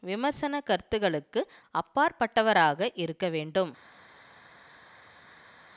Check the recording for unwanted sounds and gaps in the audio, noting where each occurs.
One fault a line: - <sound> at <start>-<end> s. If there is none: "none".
none